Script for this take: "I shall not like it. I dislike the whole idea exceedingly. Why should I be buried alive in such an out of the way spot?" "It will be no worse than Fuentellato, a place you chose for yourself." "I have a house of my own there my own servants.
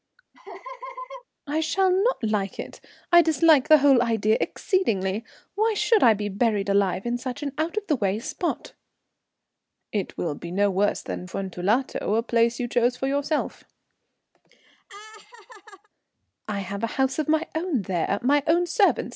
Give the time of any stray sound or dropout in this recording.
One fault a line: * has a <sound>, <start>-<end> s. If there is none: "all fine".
* has a laugh, 0.3-1.2 s
* has a laugh, 14.3-15.9 s